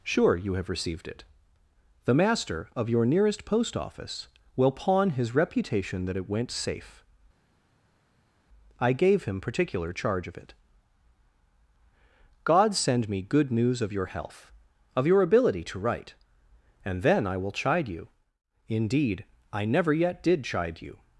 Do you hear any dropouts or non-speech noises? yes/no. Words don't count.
no